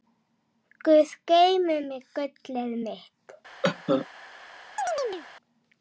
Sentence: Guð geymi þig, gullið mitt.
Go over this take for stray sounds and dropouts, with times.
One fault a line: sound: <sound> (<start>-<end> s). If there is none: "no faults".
sound: cough (3.6-4.1 s)
sound: chirp (4.8-5.3 s)